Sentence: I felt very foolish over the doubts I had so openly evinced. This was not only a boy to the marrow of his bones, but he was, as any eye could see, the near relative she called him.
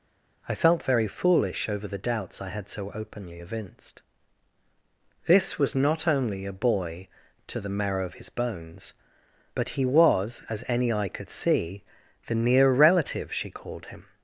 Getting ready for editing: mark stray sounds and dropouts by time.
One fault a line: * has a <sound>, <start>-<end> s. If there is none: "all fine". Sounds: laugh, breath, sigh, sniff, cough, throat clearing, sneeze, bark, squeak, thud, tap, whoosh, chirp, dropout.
all fine